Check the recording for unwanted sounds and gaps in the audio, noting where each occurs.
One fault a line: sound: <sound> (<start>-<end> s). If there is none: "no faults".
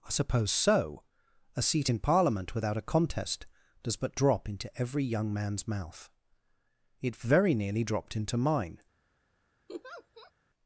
sound: laugh (9.7-10.3 s)